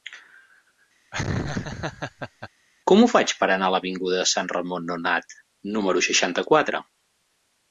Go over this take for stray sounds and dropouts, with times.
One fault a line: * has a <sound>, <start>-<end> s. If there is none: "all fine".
* has a laugh, 1.1-2.5 s